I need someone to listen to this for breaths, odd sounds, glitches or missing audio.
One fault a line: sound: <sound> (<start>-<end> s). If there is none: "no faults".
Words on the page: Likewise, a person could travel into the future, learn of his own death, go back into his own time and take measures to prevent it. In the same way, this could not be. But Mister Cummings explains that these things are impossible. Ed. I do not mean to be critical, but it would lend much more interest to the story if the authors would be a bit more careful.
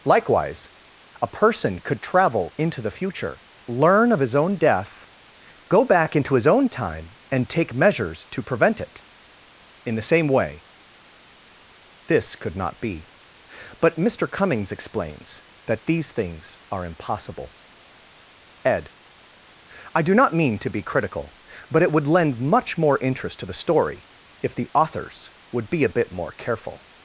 no faults